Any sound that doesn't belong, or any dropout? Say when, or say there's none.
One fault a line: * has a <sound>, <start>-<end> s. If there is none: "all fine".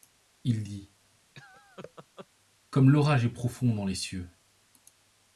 * has a laugh, 1.3-2.3 s